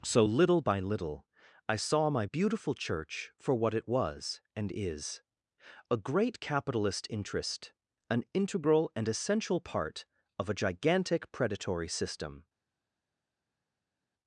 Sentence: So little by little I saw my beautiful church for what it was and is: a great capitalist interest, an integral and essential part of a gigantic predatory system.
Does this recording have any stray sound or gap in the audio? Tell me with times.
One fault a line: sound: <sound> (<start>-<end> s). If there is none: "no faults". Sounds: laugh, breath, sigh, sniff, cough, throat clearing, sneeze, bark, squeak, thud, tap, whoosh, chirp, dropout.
no faults